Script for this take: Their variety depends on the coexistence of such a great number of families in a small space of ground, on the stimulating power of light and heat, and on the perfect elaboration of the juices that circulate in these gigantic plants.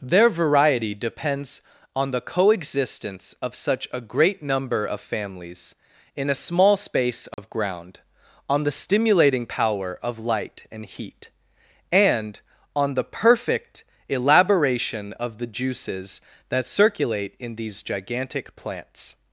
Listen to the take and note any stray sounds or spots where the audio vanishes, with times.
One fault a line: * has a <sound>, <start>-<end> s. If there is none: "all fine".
* has a dropout, 7.3-7.4 s